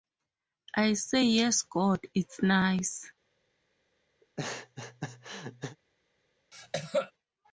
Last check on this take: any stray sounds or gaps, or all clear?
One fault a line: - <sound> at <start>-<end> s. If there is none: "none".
- laugh at 4.2-5.8 s
- cough at 6.5-7.1 s